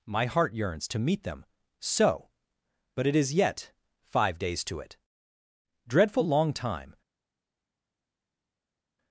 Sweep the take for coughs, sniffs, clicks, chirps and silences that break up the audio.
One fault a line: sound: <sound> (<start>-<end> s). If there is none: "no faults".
no faults